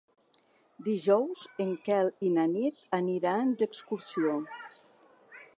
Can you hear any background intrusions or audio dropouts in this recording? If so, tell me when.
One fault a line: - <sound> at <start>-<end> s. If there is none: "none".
none